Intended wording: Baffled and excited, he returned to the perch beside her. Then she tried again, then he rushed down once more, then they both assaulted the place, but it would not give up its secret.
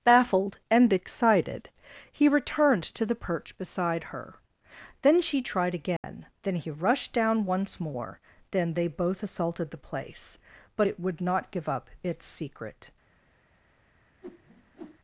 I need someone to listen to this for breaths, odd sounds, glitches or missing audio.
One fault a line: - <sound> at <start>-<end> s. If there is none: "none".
- dropout at 6.0-6.0 s
- whoosh at 14.2-15.0 s